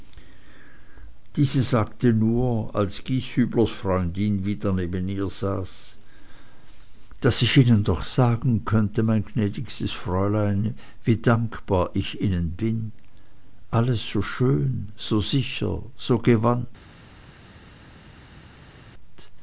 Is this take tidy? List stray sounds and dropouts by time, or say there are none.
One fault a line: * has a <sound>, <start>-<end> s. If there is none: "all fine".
all fine